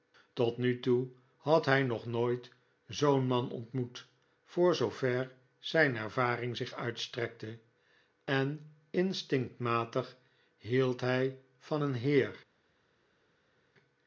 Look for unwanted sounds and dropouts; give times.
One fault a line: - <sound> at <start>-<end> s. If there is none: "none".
none